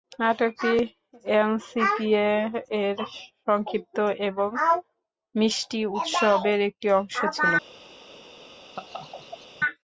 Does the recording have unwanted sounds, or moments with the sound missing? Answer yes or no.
yes